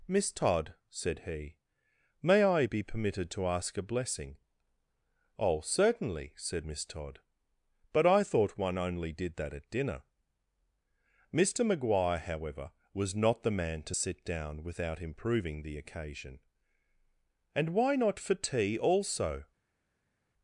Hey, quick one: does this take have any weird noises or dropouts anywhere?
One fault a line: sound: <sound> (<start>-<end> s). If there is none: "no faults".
no faults